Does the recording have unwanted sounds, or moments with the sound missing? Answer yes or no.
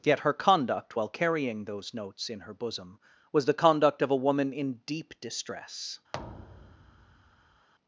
yes